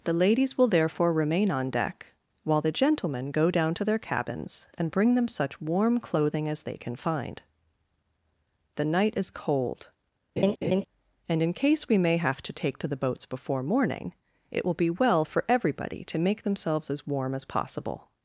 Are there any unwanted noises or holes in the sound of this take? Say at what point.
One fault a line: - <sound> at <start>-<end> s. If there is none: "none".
- laugh at 10.4-10.8 s